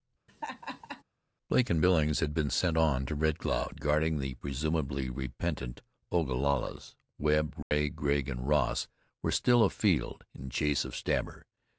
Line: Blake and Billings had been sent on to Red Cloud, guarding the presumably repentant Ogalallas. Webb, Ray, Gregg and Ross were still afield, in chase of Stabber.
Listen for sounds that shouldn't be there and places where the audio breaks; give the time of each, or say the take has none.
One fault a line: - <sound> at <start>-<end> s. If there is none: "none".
- laugh at 0.3-1.0 s
- dropout at 7.6-7.7 s